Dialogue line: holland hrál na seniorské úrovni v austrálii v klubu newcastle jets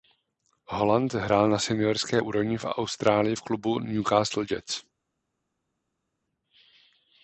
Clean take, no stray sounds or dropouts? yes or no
yes